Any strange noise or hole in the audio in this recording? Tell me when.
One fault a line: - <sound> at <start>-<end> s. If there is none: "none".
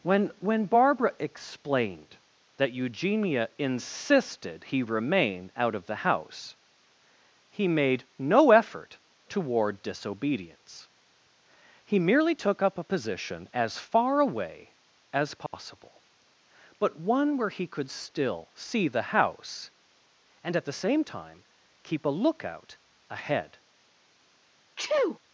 - dropout at 15.5-15.5 s
- sneeze at 24.8-25.2 s